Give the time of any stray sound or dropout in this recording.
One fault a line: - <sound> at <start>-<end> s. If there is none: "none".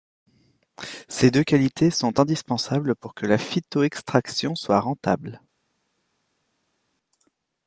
none